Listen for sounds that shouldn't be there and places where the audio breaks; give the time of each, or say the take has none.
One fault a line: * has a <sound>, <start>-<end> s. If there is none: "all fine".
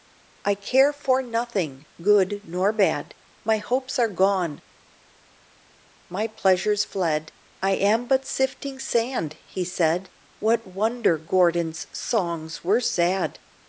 all fine